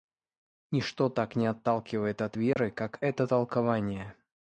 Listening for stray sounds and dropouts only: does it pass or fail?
fail